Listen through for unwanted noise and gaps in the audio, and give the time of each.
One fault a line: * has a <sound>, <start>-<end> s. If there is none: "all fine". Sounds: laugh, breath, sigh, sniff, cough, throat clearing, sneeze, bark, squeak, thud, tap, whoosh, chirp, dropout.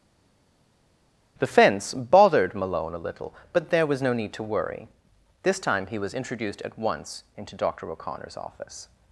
all fine